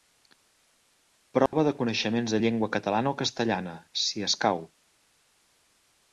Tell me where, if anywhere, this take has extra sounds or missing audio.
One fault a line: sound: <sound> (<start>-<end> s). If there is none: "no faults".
sound: dropout (1.5-1.5 s)